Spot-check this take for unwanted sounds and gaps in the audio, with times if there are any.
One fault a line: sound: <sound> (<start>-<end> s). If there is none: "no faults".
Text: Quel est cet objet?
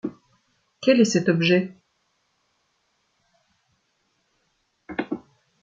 no faults